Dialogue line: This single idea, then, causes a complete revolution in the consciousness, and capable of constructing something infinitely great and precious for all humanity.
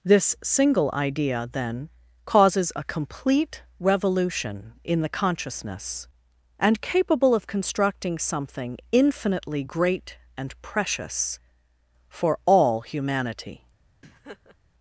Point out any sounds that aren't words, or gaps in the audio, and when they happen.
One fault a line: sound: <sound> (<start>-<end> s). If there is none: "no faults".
sound: laugh (14.0-14.6 s)